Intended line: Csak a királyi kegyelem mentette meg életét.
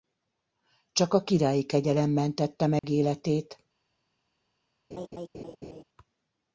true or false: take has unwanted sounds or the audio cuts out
true